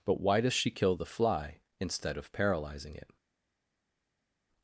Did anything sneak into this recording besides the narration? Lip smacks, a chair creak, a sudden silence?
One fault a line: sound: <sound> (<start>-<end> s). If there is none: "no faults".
no faults